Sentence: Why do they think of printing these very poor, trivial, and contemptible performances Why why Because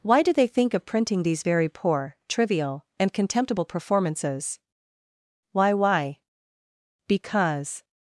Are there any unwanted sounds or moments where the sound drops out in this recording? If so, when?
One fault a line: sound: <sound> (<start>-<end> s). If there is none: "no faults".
no faults